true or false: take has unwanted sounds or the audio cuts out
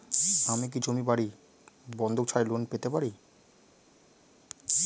false